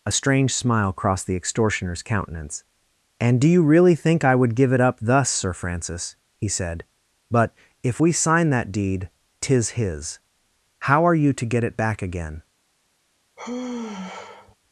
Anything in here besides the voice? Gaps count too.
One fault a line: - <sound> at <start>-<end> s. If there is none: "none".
- sigh at 13.4-14.6 s